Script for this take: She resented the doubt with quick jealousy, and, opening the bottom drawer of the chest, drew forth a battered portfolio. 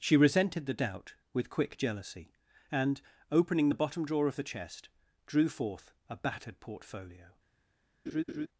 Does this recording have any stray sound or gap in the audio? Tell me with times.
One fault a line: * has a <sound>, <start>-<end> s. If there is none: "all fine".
* has a laugh, 8.1-8.5 s